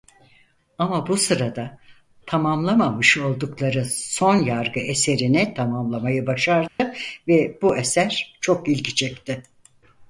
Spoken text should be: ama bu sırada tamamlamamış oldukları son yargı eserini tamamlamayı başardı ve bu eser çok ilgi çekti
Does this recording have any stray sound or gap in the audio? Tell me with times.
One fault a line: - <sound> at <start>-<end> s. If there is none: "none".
- dropout at 6.7-6.8 s